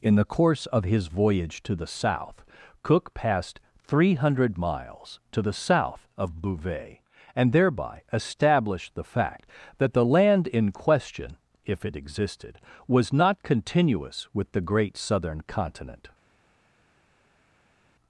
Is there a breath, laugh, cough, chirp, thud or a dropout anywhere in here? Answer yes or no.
no